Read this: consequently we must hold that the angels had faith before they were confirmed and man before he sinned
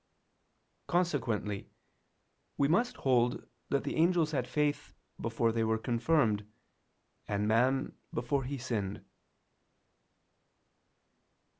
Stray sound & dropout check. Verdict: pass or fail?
pass